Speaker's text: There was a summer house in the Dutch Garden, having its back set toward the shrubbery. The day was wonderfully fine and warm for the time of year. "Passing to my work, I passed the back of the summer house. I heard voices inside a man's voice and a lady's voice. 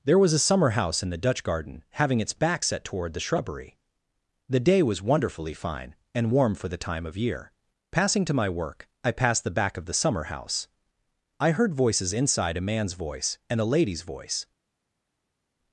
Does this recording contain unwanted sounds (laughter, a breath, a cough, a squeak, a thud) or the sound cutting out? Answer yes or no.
no